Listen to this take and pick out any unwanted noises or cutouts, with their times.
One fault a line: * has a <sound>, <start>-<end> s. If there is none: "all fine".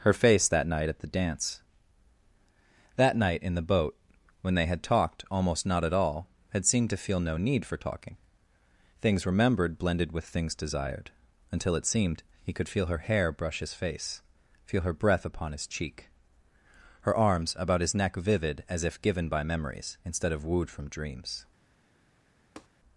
* has a tap, 22.6-22.7 s